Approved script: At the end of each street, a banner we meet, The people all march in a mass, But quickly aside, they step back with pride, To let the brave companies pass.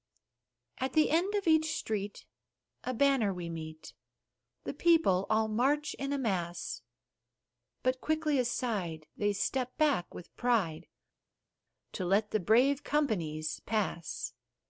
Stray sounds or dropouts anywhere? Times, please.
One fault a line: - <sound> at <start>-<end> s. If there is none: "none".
none